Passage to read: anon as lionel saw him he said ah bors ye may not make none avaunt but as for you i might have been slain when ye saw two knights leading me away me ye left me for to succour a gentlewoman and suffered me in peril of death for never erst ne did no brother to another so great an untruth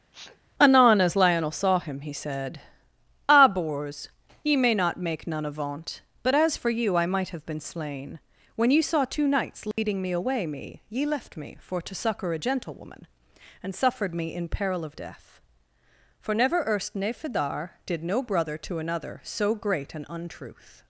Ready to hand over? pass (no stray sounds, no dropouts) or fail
fail